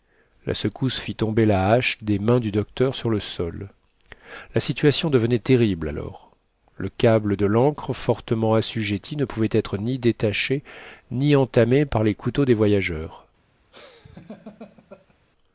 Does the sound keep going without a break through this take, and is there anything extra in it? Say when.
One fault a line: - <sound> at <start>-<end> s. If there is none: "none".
- laugh at 13.7-15.2 s